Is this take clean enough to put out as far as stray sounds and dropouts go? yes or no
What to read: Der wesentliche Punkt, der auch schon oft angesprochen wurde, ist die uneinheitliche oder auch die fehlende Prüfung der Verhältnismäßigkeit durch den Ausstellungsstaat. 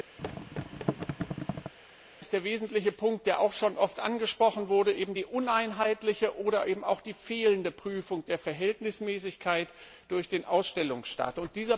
no